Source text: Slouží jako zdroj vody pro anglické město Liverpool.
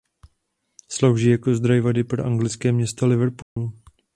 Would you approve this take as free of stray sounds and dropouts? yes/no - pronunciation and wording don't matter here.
no